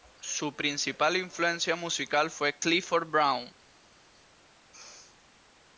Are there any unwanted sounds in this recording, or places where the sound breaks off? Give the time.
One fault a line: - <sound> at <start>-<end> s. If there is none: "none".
none